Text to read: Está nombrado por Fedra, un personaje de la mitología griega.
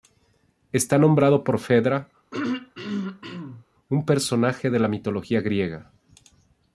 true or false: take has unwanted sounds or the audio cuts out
true